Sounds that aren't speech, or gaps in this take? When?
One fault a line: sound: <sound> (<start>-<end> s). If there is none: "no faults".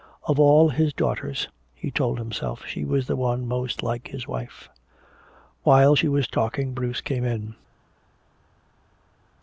no faults